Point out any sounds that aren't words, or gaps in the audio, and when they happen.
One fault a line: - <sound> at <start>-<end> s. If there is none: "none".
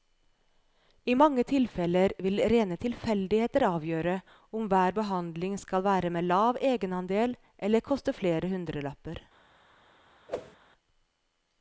- whoosh at 10.3-10.6 s